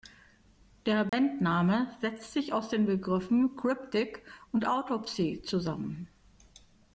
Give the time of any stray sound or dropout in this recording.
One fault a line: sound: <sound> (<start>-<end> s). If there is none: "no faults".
sound: dropout (1.1-1.1 s)